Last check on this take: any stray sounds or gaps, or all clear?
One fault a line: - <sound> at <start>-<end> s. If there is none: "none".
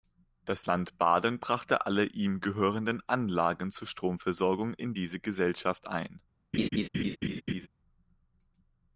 - laugh at 6.5-7.7 s